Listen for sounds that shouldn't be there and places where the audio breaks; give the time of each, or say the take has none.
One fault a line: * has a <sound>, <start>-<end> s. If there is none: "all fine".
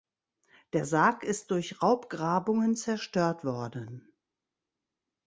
all fine